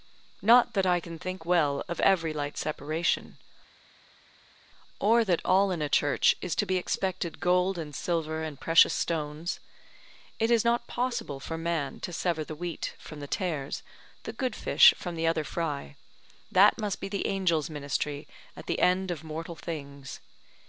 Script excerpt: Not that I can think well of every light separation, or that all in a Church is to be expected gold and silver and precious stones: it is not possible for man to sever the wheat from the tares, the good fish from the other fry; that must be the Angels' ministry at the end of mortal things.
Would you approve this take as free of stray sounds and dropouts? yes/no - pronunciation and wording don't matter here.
yes